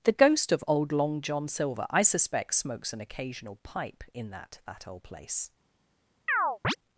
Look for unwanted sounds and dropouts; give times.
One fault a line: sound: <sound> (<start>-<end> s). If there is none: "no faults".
sound: chirp (6.3-6.8 s)